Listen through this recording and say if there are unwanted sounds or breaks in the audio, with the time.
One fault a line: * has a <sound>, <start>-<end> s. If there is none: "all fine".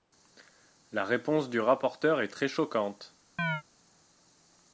* has a chirp, 3.4-3.6 s